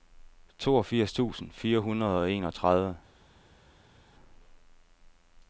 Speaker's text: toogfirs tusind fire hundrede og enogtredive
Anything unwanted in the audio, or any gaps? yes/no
no